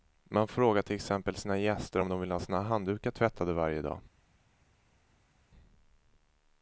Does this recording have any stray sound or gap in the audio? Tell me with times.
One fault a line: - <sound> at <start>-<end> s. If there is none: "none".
none